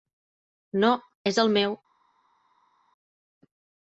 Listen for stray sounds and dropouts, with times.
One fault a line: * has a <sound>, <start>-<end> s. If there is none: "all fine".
all fine